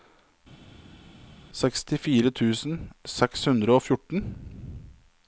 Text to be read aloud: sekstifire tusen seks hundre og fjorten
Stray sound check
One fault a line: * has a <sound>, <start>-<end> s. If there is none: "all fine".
all fine